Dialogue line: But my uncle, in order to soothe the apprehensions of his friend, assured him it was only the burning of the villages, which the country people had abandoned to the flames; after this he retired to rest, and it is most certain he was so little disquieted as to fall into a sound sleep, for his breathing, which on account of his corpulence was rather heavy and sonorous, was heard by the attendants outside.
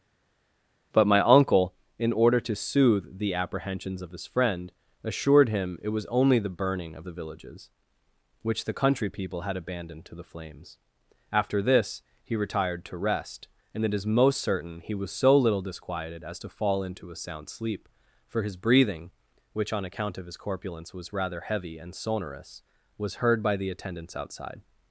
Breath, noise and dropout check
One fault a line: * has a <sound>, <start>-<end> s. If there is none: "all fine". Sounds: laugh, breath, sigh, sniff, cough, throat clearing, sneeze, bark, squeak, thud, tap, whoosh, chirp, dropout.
all fine